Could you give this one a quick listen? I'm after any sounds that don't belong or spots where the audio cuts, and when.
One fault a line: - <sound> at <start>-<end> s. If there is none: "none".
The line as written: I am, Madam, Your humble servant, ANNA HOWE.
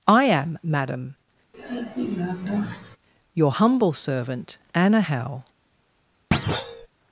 - sigh at 1.5-3.0 s
- thud at 6.3-6.9 s